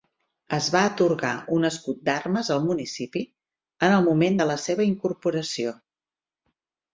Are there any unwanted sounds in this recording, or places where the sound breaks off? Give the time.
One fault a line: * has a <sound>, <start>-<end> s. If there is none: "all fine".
all fine